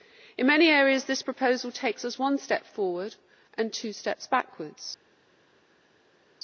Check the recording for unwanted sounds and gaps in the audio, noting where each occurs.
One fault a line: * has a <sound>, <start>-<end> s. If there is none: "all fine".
all fine